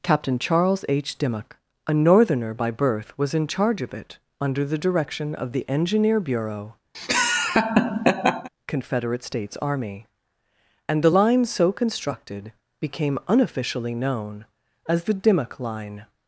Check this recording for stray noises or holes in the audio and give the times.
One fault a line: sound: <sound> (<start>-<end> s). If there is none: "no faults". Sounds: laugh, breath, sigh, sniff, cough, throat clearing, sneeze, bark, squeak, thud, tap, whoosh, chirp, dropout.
sound: laugh (6.9-8.5 s)